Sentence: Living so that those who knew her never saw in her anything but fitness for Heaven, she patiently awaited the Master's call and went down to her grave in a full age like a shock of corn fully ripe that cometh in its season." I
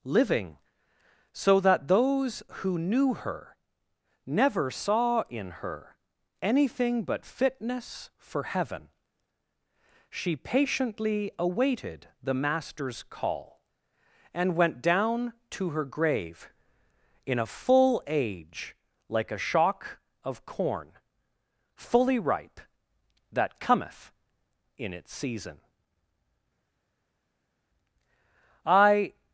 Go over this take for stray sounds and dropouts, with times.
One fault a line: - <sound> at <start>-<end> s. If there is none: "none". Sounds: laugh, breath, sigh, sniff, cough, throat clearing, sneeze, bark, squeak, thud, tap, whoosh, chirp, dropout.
none